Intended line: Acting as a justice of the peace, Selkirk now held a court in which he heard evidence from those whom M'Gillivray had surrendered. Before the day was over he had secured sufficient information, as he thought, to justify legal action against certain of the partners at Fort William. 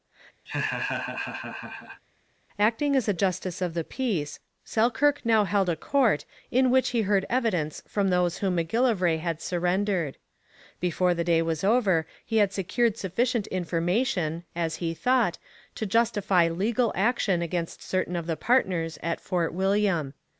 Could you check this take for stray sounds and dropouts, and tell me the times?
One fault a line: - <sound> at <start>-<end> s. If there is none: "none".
- laugh at 0.5-2.0 s